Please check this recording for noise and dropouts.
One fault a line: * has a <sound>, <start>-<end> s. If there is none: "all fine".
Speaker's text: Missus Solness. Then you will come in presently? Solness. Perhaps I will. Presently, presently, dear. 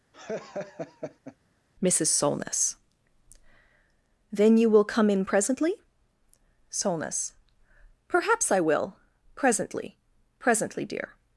* has a laugh, 0.1-1.4 s